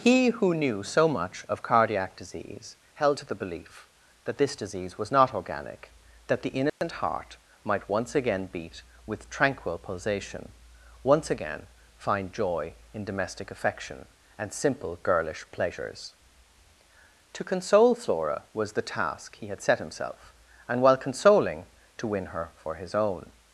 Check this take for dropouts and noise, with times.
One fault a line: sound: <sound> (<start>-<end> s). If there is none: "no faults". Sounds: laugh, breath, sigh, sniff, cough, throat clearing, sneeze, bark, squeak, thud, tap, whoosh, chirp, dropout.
sound: dropout (6.7-6.8 s)